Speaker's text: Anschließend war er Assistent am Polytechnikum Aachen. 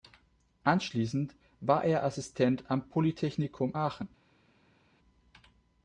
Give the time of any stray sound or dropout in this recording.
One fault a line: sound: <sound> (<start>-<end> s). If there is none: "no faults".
no faults